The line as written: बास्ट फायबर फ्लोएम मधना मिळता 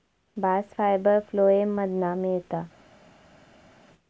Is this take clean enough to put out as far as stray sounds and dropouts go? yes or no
yes